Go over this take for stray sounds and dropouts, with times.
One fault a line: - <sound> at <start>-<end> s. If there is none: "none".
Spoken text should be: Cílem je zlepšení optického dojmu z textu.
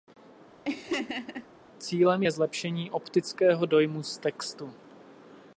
- laugh at 0.6-1.5 s